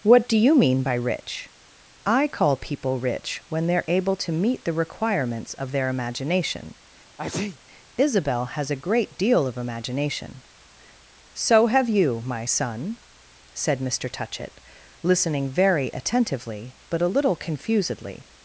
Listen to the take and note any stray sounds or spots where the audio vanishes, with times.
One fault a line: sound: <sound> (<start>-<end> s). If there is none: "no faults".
sound: sneeze (7.2-7.6 s)